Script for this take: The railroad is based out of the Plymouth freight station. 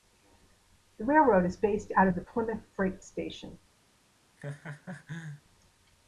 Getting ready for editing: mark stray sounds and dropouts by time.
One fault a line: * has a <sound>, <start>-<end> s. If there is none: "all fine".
* has a laugh, 4.4-5.4 s